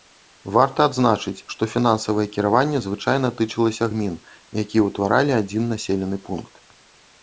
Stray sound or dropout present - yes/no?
no